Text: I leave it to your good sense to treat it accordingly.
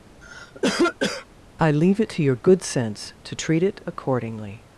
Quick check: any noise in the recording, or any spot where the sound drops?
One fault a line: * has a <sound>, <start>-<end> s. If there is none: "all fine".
* has a cough, 0.2-1.3 s